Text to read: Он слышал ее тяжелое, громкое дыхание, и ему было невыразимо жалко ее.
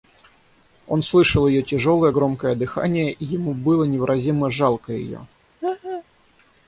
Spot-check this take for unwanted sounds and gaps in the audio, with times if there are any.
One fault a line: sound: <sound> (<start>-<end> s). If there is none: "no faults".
sound: laugh (5.6-6.0 s)